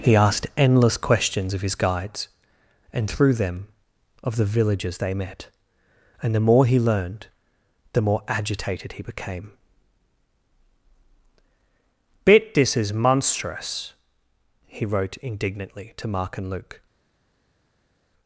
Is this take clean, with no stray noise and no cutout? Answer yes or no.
yes